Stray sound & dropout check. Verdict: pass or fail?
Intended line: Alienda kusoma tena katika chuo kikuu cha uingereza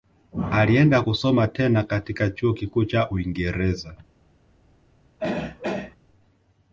fail